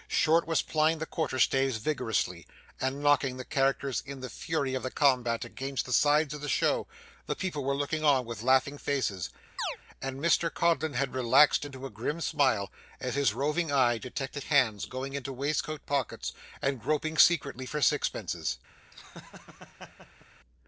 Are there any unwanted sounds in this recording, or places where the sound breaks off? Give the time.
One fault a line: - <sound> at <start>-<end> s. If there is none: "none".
- chirp at 9.6-9.8 s
- laugh at 18.9-20.3 s